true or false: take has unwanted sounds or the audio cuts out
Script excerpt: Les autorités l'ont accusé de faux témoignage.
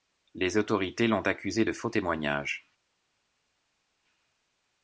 false